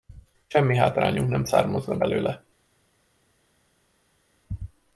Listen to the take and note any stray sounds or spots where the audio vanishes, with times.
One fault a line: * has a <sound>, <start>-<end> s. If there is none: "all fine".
all fine